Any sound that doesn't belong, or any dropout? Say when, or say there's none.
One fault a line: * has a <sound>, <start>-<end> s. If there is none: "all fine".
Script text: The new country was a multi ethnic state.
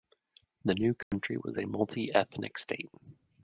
* has a dropout, 1.0-1.1 s